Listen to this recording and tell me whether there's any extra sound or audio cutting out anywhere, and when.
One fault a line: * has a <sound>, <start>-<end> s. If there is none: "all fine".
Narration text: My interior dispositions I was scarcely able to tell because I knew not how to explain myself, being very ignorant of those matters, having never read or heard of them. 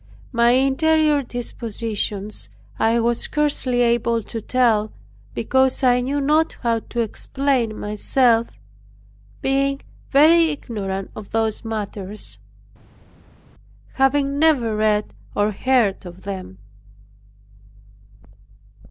all fine